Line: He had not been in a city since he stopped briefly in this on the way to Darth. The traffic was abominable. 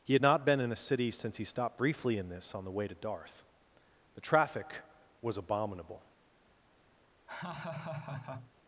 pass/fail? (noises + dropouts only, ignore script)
fail